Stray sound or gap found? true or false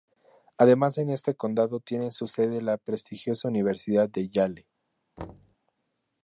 true